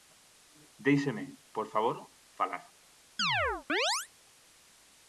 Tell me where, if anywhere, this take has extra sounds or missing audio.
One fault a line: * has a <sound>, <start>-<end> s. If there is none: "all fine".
* has a chirp, 3.2-4.1 s